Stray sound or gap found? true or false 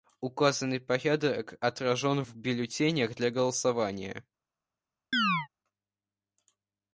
true